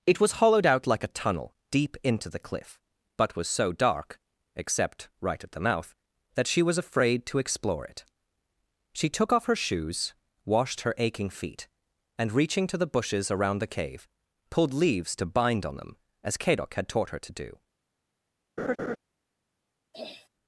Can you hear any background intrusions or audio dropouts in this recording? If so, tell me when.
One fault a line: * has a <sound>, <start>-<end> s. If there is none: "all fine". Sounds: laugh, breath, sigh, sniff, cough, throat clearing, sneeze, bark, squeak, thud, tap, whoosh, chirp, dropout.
* has a laugh, 18.6-19.0 s
* has a throat clearing, 19.9-20.3 s